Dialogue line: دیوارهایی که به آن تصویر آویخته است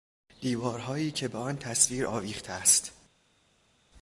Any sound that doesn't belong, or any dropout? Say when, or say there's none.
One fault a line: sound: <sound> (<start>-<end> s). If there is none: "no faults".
no faults